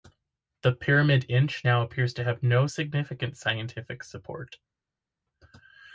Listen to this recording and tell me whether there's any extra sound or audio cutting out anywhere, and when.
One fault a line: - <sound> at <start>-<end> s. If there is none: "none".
none